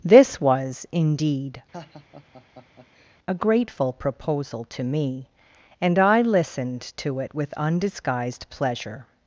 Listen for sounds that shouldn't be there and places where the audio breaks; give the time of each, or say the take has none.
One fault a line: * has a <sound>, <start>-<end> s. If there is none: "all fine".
* has a laugh, 1.7-3.2 s